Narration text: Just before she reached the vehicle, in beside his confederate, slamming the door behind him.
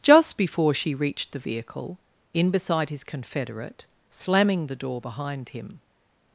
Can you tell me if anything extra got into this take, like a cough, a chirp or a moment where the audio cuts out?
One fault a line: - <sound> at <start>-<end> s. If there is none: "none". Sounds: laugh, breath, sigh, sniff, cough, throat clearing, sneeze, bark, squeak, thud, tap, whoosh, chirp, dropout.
none